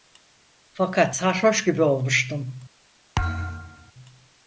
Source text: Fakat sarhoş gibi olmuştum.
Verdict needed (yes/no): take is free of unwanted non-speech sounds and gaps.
no